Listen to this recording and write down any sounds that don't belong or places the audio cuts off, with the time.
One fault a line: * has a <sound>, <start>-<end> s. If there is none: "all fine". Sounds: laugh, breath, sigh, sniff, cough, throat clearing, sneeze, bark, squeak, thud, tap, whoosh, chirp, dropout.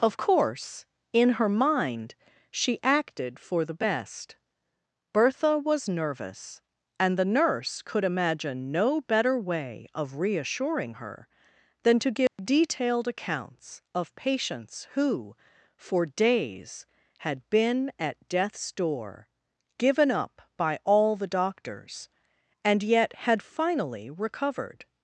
* has a dropout, 12.3-12.4 s